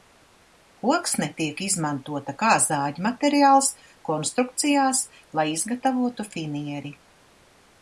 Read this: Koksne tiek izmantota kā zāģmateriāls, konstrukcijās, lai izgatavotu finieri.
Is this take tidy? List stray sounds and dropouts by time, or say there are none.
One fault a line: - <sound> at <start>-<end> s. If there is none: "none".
none